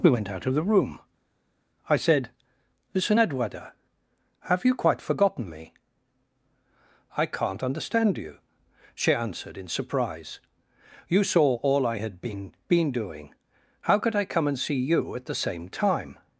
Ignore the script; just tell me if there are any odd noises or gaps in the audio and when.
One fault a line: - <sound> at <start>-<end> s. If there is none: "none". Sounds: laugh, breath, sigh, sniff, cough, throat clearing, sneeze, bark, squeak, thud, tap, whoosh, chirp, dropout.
none